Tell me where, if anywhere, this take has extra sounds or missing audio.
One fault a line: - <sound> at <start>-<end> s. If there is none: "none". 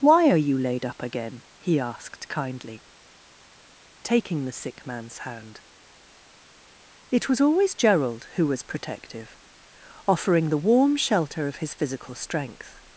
none